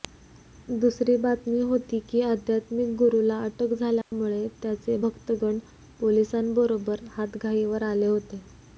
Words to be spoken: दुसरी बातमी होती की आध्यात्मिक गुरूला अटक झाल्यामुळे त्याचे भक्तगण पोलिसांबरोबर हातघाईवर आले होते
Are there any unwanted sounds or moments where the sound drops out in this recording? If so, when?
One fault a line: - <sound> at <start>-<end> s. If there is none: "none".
- dropout at 4.0-4.1 s